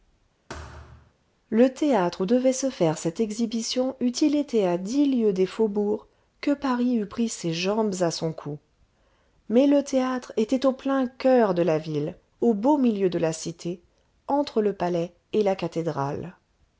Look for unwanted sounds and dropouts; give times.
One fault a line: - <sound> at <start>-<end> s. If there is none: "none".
- thud at 0.5-1.1 s